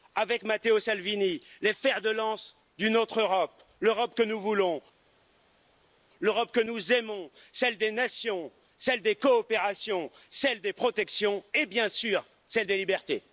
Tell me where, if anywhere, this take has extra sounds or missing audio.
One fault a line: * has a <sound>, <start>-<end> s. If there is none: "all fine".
all fine